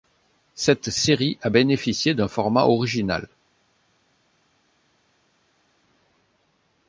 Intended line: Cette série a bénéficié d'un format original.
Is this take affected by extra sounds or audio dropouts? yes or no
no